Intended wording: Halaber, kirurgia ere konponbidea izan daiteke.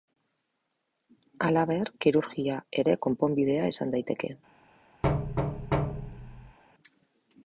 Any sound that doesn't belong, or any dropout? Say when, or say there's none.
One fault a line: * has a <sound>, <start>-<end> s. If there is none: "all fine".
* has a thud, 5.0-6.6 s